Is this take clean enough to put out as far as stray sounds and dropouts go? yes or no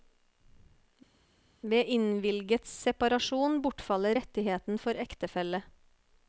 yes